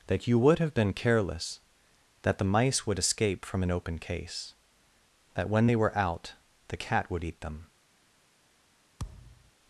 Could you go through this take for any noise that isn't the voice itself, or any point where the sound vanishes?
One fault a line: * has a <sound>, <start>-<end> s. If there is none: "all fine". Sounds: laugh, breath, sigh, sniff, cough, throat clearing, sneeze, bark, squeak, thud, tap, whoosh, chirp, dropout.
* has a thud, 9.0-9.5 s